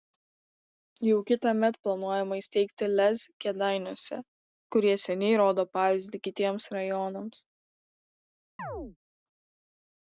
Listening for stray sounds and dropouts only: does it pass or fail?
fail